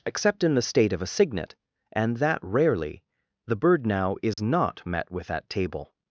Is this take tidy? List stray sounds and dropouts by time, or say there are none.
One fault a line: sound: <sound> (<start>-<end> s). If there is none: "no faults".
sound: dropout (4.3-4.4 s)